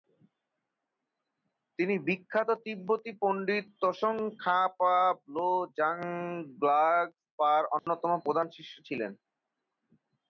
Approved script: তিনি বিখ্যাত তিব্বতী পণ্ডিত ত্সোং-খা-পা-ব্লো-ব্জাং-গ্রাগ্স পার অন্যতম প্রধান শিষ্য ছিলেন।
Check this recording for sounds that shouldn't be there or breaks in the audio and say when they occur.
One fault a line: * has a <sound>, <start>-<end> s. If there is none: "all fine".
* has a dropout, 7.8-7.9 s